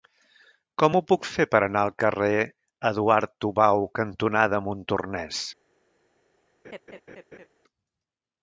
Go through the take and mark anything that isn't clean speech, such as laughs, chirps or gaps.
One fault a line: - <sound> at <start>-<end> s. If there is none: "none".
- laugh at 6.6-7.5 s